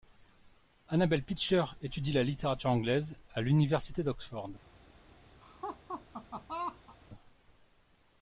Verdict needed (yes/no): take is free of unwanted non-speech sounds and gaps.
no